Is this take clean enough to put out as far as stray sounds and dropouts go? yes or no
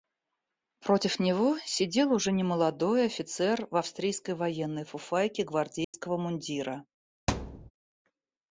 no